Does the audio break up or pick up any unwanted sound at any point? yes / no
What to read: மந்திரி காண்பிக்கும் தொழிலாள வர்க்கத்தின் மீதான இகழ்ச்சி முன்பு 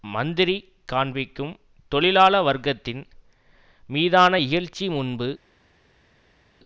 no